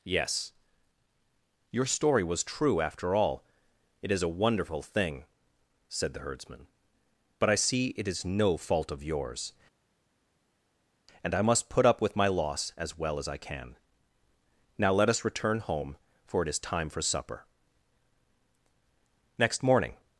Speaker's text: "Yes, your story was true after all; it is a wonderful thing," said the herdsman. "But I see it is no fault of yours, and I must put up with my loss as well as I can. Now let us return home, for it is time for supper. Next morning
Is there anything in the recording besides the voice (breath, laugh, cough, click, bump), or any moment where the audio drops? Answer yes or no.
no